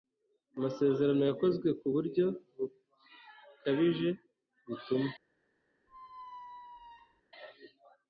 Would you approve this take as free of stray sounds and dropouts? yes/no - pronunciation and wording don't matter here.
no